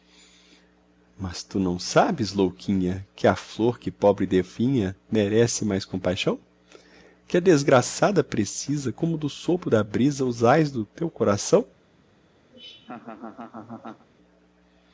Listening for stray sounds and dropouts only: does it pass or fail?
fail